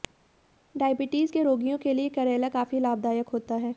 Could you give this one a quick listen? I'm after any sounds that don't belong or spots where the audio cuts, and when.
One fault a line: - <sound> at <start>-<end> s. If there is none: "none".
none